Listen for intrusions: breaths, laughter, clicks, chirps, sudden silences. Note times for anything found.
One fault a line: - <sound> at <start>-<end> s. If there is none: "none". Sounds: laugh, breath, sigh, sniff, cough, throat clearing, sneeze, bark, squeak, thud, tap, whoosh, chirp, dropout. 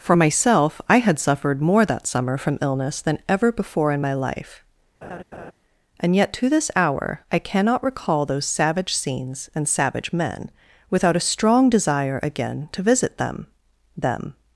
- laugh at 5.0-5.5 s